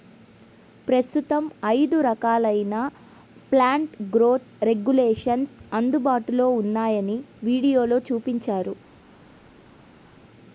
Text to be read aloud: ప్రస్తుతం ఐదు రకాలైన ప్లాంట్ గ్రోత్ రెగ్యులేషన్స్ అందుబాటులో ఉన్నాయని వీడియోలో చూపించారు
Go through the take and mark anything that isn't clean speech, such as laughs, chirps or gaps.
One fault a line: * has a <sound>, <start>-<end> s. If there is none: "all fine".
all fine